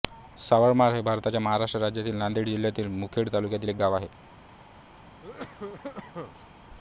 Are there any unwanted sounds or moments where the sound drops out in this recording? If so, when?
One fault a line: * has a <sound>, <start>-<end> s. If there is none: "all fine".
* has a cough, 5.2-6.5 s